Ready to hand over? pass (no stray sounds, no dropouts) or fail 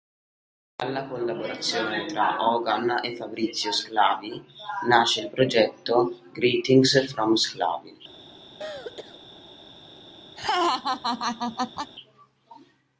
fail